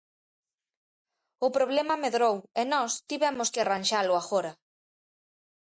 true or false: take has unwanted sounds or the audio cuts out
false